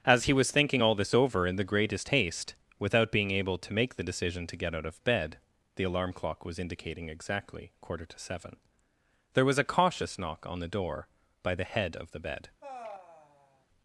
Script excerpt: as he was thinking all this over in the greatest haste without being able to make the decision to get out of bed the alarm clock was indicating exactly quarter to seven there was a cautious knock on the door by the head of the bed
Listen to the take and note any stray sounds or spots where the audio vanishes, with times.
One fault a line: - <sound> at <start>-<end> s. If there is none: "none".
- sigh at 12.6-13.7 s